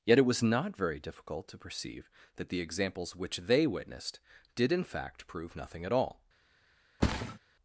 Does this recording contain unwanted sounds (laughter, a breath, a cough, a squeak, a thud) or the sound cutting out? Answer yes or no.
yes